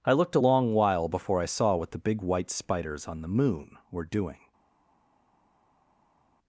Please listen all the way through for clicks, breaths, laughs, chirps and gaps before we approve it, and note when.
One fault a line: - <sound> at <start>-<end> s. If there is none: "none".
none